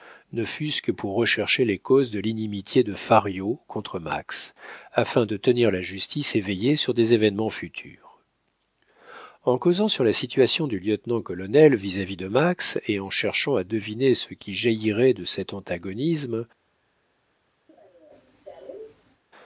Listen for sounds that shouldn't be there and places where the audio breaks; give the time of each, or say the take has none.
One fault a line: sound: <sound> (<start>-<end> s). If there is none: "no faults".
sound: cough (17.7-19.2 s)